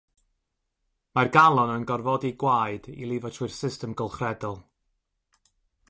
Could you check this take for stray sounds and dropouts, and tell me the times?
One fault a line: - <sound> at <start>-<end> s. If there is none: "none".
none